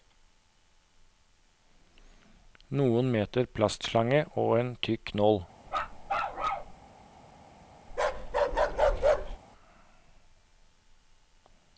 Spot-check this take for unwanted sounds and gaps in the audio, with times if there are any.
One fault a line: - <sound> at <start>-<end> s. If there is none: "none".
- bark at 5.7-6.8 s
- bark at 7.9-9.4 s